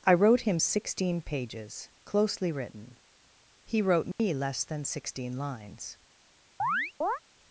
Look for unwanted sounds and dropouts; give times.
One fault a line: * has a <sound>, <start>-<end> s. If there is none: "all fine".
* has a dropout, 4.1-4.2 s
* has a chirp, 6.6-7.2 s